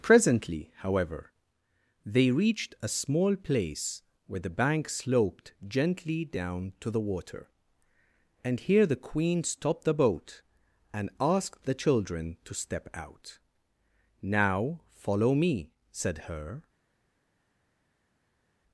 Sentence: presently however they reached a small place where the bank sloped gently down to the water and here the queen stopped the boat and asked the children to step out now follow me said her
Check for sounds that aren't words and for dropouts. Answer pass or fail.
pass